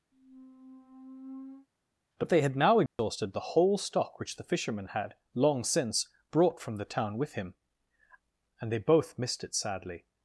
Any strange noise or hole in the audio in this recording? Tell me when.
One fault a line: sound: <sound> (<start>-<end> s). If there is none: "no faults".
sound: squeak (0.1-1.7 s)
sound: dropout (2.9-3.0 s)